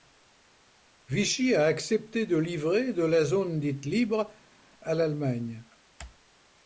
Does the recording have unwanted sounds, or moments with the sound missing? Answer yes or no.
no